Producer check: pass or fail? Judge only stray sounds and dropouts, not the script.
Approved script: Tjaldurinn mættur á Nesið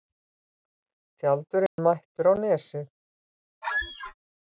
fail